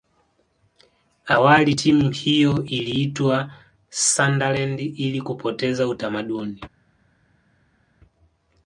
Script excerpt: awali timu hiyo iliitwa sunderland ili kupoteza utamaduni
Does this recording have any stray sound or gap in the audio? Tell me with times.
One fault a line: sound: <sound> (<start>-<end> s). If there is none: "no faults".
no faults